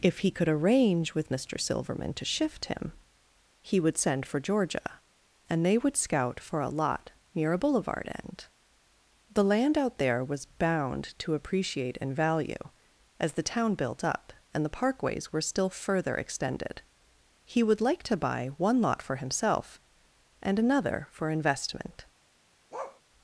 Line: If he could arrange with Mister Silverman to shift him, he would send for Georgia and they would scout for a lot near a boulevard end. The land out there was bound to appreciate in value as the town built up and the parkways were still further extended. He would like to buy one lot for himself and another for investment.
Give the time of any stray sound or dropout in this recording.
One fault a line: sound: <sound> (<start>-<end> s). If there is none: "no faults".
sound: bark (22.7-23.0 s)